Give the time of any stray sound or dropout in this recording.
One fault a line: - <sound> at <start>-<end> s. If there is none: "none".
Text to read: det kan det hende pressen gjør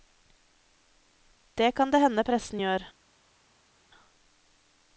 none